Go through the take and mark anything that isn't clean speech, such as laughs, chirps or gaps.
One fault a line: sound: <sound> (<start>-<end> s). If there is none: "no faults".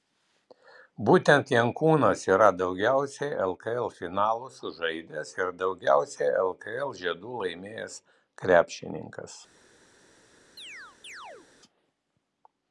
sound: chirp (10.6-11.5 s)